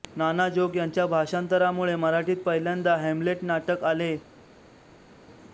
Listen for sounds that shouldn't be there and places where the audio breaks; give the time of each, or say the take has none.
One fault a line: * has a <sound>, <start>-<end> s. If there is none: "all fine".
all fine